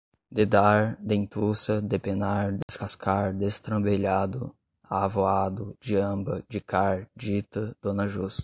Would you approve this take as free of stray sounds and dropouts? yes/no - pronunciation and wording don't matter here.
no